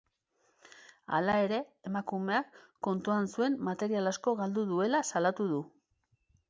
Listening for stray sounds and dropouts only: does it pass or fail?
pass